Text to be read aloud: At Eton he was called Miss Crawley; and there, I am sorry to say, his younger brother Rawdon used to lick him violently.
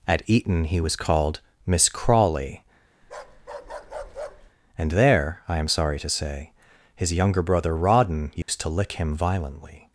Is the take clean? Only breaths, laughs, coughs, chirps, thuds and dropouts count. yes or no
no